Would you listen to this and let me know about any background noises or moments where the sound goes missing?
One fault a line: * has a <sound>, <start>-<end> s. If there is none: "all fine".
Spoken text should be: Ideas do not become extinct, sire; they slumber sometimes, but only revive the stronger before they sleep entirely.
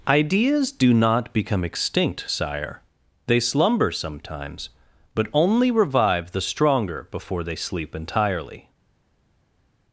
all fine